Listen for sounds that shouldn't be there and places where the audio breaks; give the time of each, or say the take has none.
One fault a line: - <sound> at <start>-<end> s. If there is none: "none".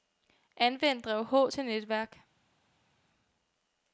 none